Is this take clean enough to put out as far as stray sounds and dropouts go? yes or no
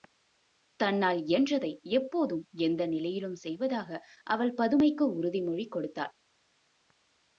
yes